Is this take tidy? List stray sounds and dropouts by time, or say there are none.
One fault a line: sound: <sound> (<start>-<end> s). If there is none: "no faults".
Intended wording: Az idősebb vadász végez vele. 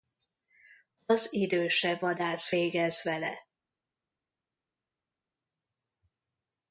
no faults